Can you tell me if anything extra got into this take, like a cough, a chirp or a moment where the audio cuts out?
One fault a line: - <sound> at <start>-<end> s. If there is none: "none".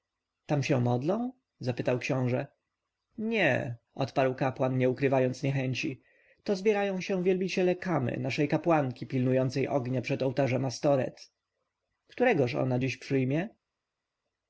none